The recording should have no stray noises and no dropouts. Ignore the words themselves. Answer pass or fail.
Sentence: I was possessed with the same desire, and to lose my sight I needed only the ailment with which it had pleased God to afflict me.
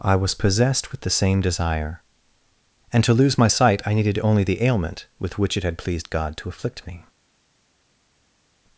pass